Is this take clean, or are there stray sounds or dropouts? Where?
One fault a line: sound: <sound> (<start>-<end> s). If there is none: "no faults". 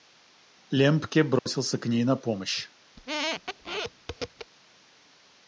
sound: dropout (1.4-1.5 s)
sound: squeak (3.0-4.5 s)